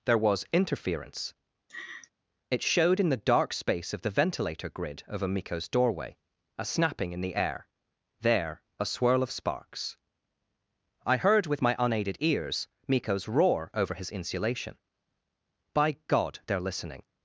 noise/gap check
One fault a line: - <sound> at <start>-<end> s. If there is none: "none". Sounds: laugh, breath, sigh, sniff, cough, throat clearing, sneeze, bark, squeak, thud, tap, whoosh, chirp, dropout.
- laugh at 1.7-2.1 s